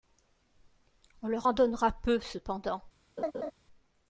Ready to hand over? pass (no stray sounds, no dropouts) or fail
fail